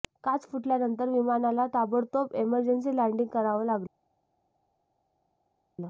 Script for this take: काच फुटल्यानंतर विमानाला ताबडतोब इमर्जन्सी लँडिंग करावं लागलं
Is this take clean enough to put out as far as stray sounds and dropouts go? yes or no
yes